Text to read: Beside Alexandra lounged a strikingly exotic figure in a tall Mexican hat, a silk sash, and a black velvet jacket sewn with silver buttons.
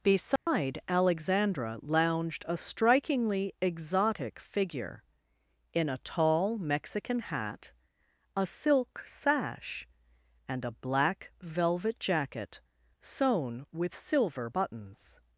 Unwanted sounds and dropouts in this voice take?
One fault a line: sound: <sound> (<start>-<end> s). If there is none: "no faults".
sound: dropout (0.4-0.5 s)